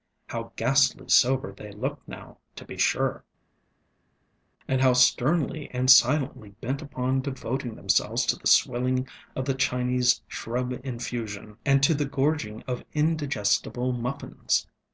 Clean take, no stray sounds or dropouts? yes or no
yes